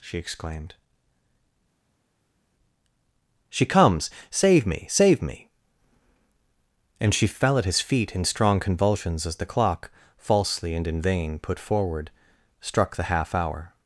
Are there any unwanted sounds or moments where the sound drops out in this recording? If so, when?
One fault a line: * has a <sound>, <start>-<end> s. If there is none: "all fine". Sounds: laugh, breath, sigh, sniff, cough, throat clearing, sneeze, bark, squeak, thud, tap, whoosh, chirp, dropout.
all fine